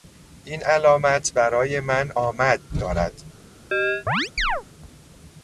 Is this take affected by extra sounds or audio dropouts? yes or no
yes